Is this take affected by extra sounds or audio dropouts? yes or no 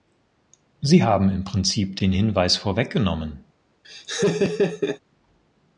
yes